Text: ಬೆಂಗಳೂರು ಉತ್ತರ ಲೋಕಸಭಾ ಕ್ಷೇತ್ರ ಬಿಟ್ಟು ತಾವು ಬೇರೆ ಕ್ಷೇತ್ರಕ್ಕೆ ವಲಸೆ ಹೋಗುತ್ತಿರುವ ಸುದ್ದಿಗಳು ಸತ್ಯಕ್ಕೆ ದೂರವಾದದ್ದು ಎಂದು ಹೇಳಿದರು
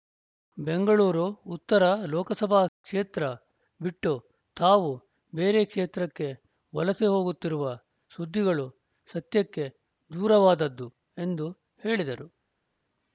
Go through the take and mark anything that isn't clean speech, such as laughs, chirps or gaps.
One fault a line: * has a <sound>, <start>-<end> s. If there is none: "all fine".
all fine